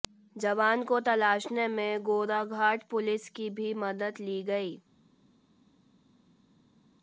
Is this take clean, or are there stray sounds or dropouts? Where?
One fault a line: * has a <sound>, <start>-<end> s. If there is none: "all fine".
all fine